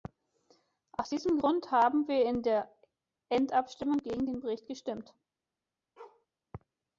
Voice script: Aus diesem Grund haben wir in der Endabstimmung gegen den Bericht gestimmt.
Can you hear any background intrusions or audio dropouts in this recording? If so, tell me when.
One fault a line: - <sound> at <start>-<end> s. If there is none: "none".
- bark at 6.0-6.3 s